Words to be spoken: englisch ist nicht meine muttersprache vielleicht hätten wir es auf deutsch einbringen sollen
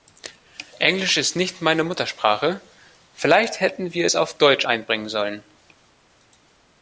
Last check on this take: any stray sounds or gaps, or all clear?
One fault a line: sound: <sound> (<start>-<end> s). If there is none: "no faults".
no faults